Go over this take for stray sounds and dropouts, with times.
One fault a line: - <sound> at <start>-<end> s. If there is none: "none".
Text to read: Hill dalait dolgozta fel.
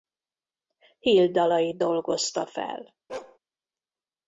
- bark at 3.1-3.4 s